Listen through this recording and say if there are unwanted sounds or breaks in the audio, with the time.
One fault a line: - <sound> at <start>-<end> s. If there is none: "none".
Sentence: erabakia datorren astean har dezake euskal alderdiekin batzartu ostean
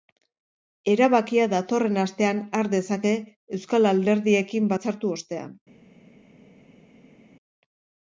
none